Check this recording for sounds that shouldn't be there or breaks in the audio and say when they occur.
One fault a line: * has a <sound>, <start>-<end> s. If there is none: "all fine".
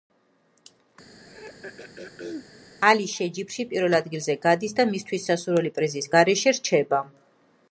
* has a throat clearing, 1.2-2.5 s